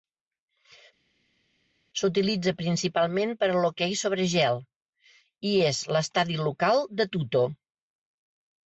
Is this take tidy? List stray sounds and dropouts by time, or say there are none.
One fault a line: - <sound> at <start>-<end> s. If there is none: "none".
none